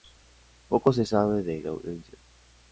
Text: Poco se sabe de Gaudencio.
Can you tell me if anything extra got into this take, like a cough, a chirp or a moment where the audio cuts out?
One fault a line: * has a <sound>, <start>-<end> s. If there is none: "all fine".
all fine